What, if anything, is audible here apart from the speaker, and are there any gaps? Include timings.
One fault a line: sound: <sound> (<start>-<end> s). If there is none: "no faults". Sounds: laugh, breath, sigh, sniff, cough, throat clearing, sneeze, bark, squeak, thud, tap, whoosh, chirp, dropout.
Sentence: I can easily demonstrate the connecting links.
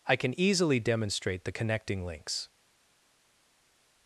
no faults